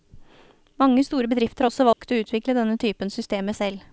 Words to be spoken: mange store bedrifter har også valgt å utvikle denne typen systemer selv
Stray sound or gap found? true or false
true